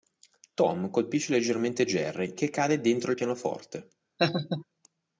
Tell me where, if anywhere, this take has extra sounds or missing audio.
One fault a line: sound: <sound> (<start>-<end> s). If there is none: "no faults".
sound: laugh (4.2-4.6 s)